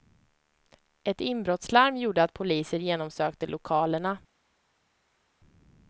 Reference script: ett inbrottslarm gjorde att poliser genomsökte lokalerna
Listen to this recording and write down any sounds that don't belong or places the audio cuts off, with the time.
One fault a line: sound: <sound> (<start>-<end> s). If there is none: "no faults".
no faults